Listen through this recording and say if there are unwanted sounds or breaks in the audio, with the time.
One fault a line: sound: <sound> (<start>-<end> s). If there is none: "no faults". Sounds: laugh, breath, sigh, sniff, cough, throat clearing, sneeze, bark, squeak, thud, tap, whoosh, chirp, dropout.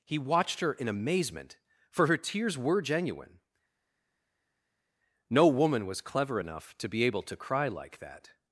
no faults